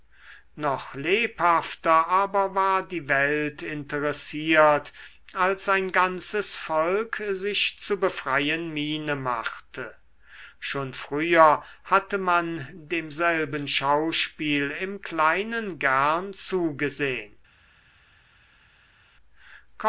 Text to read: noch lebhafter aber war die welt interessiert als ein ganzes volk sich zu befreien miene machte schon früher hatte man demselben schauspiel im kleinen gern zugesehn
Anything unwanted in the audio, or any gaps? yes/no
no